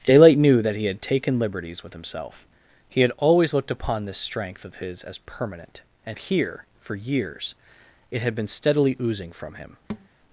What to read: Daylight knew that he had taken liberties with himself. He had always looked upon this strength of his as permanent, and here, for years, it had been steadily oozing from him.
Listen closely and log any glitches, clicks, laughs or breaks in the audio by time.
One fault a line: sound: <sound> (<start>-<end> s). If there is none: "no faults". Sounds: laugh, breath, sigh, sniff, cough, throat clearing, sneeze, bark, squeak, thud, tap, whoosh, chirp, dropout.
sound: thud (9.9-10.1 s)